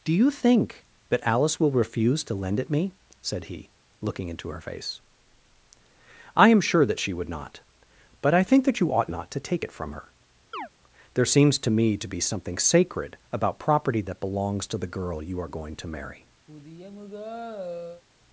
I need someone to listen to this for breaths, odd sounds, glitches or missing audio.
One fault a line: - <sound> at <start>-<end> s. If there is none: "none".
- chirp at 10.5-10.7 s
- sigh at 16.5-18.0 s